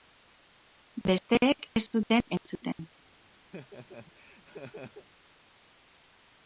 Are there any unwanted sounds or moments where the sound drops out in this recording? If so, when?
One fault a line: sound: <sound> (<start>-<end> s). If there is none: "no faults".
sound: laugh (3.5-5.1 s)